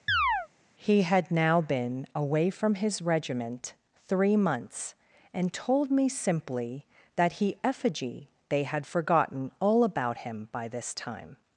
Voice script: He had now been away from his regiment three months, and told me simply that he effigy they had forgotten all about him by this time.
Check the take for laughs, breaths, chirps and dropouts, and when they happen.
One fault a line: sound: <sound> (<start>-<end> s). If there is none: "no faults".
sound: chirp (0.1-0.5 s)